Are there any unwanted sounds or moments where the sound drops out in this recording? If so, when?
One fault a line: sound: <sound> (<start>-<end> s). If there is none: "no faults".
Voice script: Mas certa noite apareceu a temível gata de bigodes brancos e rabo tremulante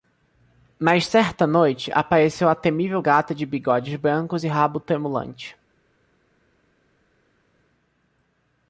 no faults